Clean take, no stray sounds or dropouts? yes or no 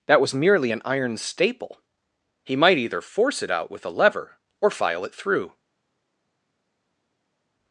yes